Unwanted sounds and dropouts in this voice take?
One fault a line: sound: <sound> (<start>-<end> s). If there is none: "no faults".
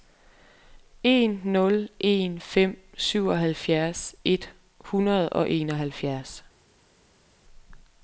no faults